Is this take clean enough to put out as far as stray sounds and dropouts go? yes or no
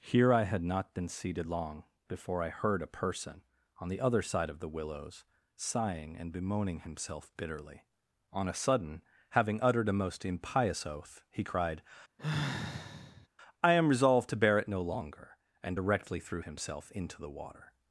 no